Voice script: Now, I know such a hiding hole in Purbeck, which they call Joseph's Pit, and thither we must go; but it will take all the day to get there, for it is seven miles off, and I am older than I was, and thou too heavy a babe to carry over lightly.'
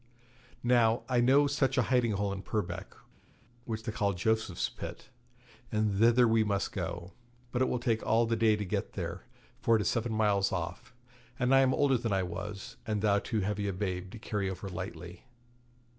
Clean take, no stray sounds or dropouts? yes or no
yes